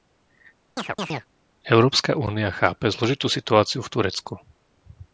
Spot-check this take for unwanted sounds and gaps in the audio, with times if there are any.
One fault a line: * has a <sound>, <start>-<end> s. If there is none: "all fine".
* has a chirp, 0.8-1.3 s